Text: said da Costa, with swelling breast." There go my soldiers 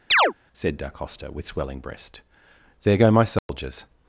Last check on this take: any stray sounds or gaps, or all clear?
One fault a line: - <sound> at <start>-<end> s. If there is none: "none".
- chirp at 0.1-0.3 s
- dropout at 3.4-3.5 s